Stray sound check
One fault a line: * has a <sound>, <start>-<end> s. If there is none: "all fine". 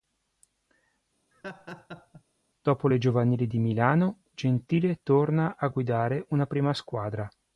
* has a laugh, 1.3-2.2 s